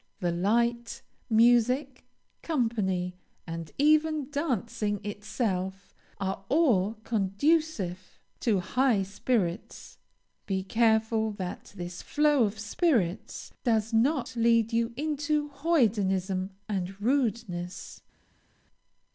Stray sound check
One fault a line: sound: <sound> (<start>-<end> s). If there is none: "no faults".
no faults